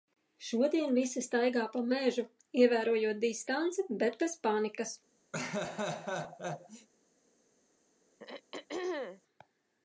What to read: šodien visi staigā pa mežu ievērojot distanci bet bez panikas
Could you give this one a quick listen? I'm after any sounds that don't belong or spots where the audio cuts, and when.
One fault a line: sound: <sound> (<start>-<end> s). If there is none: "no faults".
sound: laugh (5.3-6.9 s)
sound: throat clearing (8.2-9.2 s)